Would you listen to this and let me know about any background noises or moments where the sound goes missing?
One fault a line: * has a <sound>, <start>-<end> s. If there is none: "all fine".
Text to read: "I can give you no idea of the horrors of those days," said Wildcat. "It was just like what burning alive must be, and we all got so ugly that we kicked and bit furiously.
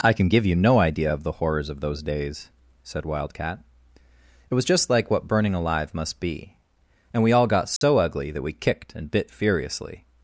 * has a dropout, 7.8-7.8 s